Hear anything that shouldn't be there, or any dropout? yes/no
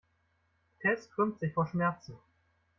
no